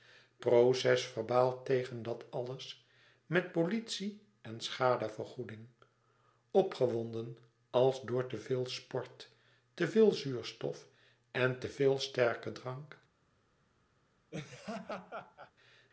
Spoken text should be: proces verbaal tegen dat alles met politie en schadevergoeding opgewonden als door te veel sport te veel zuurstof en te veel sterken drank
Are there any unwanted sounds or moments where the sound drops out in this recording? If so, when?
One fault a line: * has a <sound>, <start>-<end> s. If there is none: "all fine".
* has a laugh, 14.3-15.5 s